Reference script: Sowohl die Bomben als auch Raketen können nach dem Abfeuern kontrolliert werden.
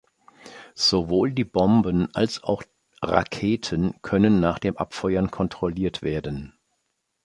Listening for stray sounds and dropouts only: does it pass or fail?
pass